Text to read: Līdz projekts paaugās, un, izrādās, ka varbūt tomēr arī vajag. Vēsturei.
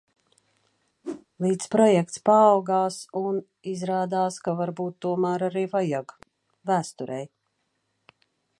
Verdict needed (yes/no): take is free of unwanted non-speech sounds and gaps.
no